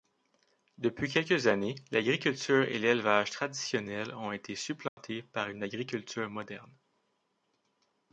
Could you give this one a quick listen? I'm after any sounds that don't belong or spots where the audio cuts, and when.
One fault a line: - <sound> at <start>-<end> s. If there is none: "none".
- dropout at 4.9-5.0 s